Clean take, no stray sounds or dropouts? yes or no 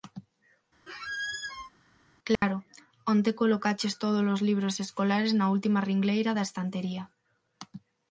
no